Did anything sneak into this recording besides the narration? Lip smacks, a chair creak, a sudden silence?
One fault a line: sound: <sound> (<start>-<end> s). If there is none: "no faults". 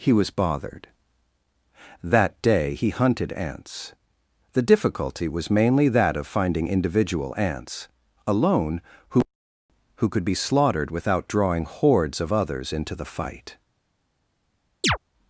sound: chirp (14.8-15.0 s)